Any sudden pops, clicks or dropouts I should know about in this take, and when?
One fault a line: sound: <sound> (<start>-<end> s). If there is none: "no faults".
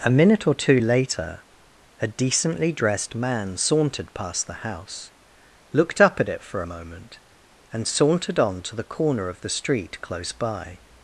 no faults